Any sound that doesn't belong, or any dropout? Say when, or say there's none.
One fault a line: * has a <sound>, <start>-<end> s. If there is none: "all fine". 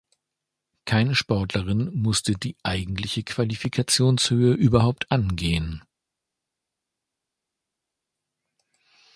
all fine